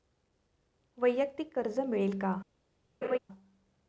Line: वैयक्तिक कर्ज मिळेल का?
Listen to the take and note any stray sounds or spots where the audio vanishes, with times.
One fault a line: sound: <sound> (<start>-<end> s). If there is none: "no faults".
sound: laugh (3.0-3.2 s)